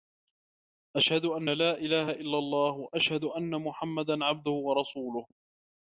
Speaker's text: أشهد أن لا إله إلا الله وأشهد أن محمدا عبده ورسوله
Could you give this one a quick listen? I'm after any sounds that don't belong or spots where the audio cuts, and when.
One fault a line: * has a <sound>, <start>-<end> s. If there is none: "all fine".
all fine